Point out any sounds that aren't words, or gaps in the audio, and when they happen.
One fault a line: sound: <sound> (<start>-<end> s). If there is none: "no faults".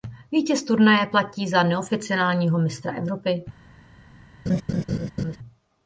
sound: laugh (4.5-5.4 s)